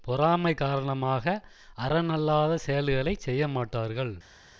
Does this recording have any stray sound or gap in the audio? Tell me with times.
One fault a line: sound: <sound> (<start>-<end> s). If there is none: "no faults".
no faults